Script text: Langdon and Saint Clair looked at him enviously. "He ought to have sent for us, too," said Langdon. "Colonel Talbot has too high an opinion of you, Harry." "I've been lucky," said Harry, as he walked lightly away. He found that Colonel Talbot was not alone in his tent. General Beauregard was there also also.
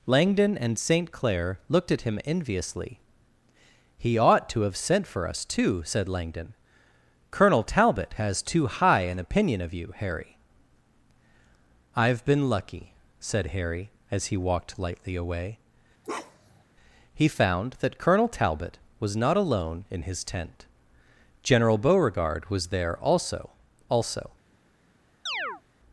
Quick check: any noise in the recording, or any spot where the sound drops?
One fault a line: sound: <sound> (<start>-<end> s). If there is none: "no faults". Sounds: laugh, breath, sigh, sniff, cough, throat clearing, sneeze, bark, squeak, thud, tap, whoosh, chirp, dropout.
sound: bark (16.0-16.6 s)
sound: chirp (25.3-25.6 s)